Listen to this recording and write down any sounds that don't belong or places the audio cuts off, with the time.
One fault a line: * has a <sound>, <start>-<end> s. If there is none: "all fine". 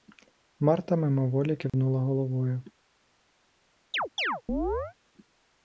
* has a dropout, 1.7-1.7 s
* has a chirp, 3.9-4.9 s